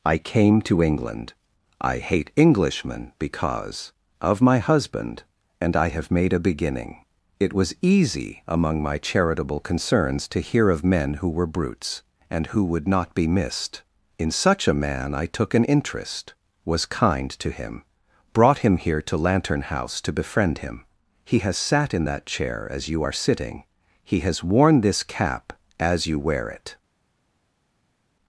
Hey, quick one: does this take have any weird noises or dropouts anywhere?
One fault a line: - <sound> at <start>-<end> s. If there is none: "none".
none